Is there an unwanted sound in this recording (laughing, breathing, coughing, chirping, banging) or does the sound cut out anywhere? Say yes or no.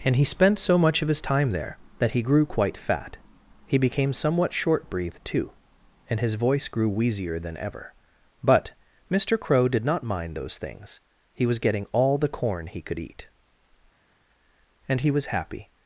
no